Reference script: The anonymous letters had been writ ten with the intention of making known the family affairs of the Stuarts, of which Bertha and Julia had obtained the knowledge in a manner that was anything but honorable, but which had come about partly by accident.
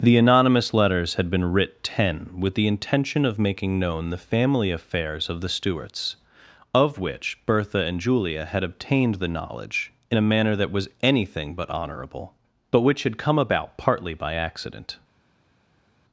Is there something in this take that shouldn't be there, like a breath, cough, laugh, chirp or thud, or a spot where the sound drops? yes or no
no